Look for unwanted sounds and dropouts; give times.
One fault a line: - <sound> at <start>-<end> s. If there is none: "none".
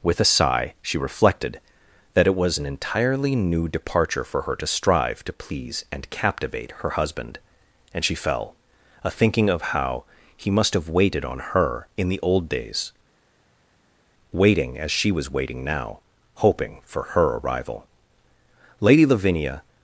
none